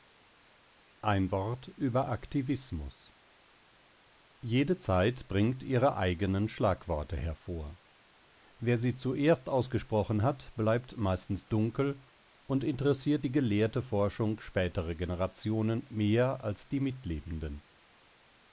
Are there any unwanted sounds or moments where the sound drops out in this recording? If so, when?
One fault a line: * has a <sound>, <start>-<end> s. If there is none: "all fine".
all fine